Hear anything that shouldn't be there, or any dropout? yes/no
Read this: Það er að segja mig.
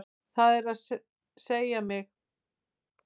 no